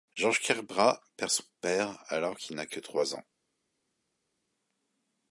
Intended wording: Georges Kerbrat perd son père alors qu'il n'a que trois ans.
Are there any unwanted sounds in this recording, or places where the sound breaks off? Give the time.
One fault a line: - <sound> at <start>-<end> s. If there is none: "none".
none